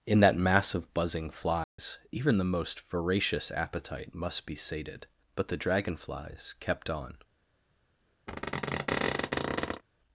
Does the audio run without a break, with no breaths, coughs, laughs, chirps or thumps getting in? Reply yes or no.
no